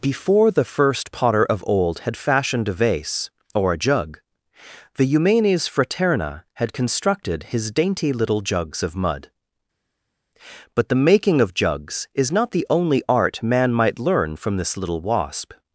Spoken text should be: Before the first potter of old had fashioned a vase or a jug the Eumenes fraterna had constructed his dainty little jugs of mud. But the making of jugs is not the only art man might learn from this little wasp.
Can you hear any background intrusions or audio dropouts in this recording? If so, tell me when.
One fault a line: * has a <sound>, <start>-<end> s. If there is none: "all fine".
all fine